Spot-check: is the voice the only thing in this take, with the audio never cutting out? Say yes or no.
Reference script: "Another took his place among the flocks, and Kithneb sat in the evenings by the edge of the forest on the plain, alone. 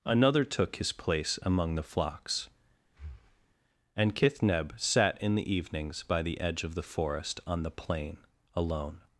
no